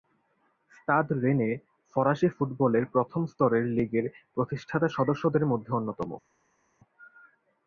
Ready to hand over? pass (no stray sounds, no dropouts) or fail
pass